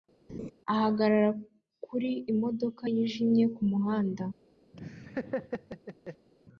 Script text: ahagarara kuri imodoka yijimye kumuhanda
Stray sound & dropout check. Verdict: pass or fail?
fail